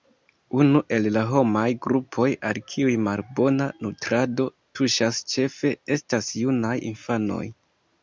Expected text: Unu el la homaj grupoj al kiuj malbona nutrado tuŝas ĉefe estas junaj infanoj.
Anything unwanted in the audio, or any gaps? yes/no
no